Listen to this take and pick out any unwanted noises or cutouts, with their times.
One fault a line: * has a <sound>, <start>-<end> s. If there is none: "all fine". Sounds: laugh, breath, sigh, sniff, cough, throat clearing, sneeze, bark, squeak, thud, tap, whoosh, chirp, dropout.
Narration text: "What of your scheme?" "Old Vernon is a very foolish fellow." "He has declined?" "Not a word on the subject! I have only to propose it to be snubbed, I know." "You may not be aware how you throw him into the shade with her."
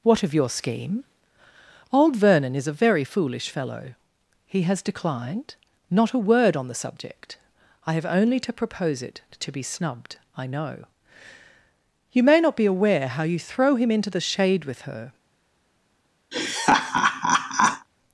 * has a laugh, 16.3-17.9 s